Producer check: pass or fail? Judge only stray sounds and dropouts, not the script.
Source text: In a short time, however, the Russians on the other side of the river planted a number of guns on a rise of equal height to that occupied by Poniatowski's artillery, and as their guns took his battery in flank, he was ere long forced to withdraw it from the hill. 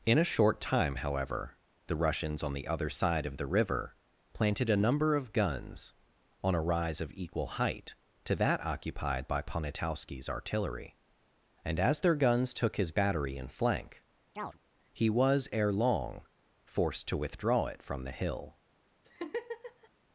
fail